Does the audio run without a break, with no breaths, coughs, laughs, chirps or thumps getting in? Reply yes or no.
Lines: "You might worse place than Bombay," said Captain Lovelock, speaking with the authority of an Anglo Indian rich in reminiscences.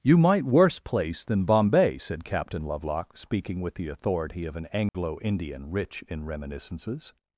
no